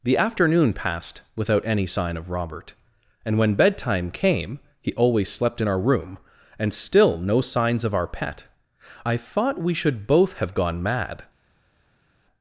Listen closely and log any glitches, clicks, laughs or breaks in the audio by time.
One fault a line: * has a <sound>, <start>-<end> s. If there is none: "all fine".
all fine